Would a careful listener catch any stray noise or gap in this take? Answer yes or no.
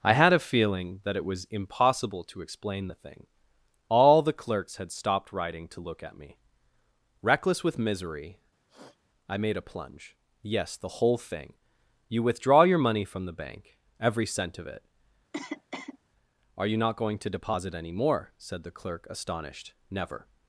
yes